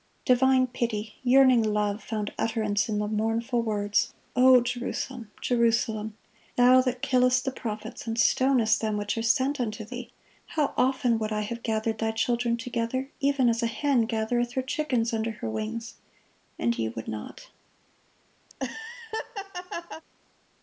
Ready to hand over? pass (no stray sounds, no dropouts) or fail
fail